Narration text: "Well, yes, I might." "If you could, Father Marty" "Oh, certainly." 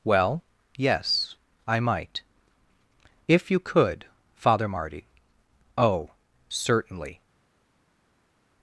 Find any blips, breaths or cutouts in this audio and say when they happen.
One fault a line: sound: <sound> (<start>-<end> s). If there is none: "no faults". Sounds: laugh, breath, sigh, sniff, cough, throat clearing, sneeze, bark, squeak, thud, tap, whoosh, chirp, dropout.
no faults